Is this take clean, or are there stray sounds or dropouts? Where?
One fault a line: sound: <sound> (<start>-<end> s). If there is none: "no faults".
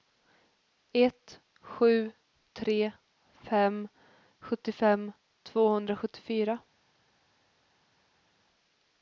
no faults